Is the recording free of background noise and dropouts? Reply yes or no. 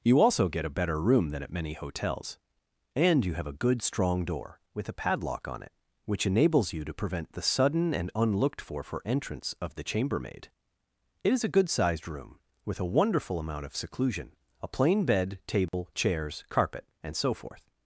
no